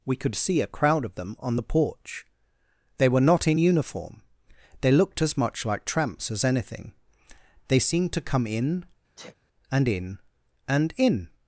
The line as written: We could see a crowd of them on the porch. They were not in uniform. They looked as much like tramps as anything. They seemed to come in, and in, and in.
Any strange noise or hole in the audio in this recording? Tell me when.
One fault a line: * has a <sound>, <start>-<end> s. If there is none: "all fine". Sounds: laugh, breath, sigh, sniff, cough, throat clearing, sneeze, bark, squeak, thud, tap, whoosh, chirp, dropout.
* has a sniff, 9.2-9.4 s